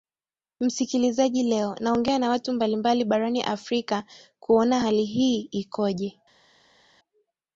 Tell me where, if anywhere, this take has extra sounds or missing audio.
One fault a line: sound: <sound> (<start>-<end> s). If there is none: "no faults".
no faults